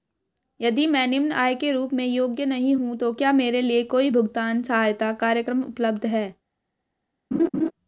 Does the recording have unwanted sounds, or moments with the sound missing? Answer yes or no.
yes